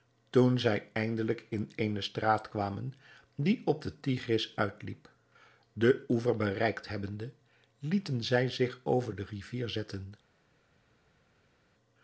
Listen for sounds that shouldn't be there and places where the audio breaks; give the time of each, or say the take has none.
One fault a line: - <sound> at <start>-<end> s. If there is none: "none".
none